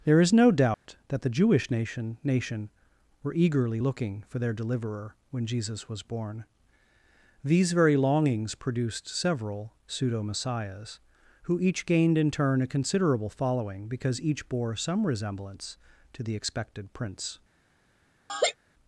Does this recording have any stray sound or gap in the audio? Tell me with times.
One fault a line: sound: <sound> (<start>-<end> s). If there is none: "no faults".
sound: dropout (0.7-0.9 s)
sound: laugh (18.3-18.5 s)